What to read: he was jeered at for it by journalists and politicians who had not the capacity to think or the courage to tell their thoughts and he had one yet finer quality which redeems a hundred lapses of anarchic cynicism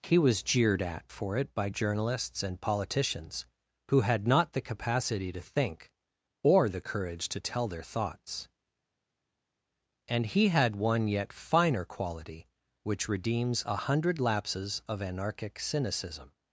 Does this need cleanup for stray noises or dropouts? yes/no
no